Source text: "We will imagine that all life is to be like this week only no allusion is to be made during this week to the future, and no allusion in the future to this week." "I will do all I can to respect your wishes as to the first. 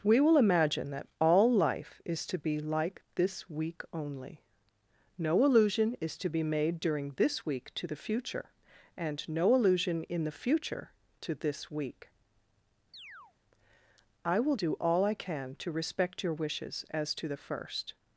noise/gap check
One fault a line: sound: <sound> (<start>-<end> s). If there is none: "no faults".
sound: chirp (12.9-13.3 s)